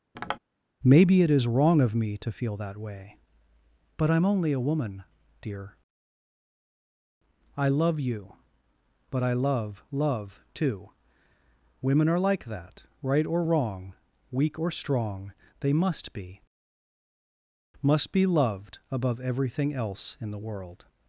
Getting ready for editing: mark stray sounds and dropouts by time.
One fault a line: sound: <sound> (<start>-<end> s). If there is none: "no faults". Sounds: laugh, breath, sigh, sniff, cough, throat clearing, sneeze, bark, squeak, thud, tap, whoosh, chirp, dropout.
sound: tap (0.1-0.4 s)